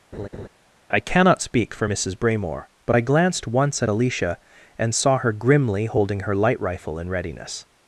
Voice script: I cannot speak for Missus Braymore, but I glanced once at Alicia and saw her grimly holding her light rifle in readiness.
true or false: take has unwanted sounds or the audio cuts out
true